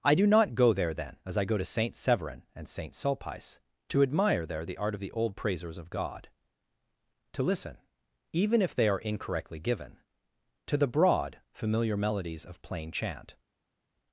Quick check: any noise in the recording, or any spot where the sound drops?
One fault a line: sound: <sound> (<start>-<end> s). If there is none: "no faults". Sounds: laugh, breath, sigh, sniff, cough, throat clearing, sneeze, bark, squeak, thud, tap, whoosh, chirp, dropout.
no faults